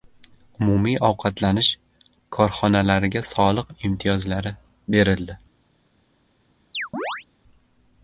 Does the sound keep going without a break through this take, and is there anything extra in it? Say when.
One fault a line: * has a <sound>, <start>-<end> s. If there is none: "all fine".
* has a chirp, 6.7-7.3 s